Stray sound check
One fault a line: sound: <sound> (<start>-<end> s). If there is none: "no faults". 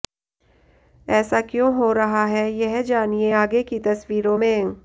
no faults